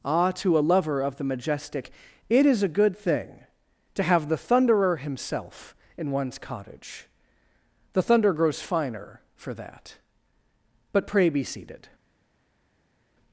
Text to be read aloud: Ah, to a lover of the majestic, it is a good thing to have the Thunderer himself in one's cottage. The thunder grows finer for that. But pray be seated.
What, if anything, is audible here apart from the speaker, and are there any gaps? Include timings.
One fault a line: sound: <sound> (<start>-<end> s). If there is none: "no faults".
no faults